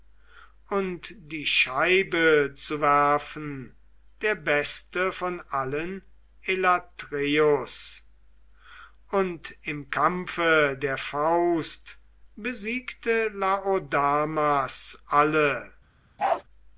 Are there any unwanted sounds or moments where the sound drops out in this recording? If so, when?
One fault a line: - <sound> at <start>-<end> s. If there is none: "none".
- bark at 16.2-16.4 s